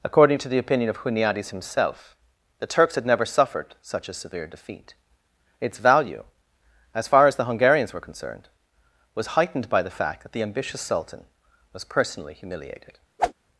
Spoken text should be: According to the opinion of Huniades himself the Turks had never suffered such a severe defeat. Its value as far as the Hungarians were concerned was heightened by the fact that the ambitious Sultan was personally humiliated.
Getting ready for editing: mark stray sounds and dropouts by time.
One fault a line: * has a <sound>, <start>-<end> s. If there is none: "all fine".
* has a whoosh, 13.2-13.3 s